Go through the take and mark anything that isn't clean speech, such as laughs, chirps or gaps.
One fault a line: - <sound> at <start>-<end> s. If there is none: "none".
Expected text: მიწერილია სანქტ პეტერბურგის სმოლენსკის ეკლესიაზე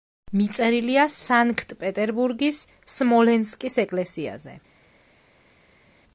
none